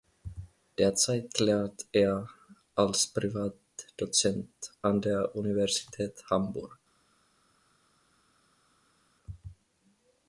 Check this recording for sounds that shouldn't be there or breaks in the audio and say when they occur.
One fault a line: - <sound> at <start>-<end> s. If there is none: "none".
none